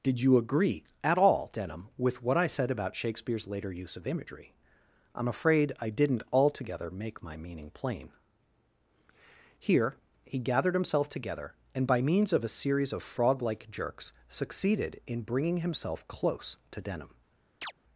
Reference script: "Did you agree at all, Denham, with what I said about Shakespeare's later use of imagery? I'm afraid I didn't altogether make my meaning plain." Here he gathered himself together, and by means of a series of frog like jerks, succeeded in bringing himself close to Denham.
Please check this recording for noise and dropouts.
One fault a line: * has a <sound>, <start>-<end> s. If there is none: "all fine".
* has a chirp, 17.6-17.7 s